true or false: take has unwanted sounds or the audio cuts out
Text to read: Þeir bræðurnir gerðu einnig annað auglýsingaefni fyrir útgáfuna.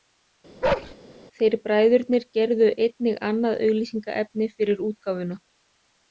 true